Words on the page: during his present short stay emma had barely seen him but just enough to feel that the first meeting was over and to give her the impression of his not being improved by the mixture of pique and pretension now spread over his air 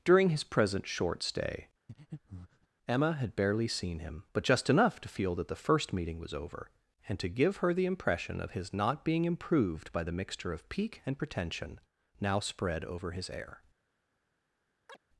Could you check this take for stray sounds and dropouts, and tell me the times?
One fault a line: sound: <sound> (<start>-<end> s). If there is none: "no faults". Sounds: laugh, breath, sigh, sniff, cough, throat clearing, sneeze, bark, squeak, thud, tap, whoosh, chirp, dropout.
sound: breath (1.9-2.7 s)
sound: chirp (14.9-15.0 s)